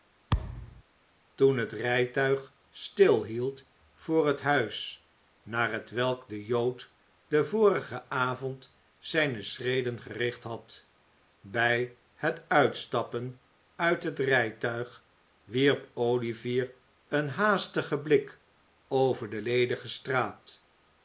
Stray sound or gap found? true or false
true